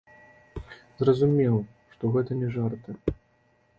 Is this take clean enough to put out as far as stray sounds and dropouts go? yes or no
yes